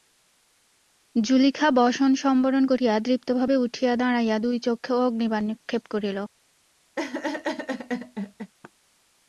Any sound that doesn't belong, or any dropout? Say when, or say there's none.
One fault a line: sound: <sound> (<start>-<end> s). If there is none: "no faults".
sound: laugh (7.0-8.5 s)